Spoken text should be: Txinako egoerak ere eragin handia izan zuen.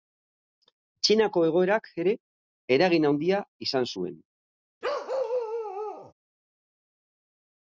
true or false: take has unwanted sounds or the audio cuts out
true